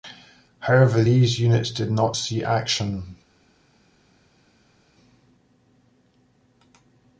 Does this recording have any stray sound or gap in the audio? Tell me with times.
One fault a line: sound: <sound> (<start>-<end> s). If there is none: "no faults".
no faults